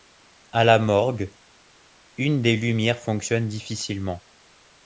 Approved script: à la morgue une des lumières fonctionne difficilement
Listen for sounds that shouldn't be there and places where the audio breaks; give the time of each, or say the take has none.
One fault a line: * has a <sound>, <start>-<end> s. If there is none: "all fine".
all fine